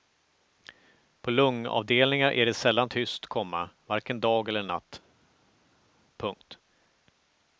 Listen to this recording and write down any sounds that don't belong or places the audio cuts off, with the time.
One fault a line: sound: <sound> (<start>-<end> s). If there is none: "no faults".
no faults